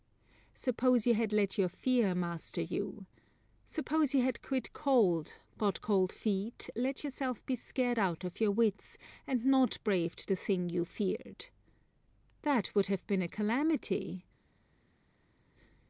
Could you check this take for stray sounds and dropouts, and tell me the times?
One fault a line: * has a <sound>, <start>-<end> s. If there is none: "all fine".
all fine